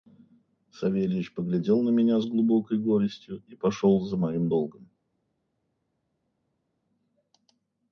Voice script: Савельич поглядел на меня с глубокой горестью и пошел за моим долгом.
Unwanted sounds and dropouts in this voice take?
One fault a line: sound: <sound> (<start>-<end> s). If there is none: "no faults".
no faults